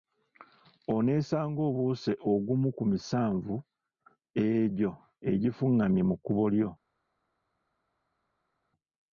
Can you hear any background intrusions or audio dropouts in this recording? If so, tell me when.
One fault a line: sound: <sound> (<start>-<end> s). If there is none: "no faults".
no faults